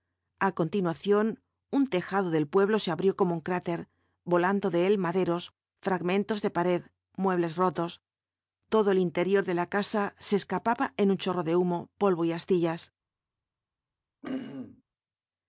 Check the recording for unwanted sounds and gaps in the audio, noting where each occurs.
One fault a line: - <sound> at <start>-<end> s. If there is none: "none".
- throat clearing at 14.2-14.8 s